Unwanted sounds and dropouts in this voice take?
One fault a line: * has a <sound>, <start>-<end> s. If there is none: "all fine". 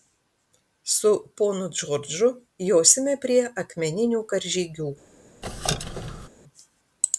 * has a squeak, 5.4-6.3 s